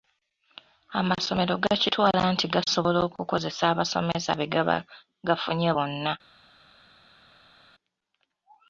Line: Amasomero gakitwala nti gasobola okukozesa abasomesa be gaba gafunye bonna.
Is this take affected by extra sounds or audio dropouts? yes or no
no